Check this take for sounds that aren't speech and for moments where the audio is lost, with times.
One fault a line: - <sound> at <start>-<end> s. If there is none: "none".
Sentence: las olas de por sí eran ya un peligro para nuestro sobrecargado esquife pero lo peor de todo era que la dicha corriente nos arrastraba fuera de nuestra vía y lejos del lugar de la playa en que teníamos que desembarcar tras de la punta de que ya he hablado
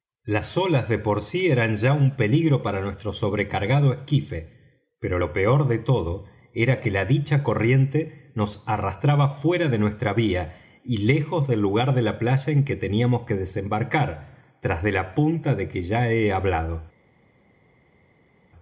none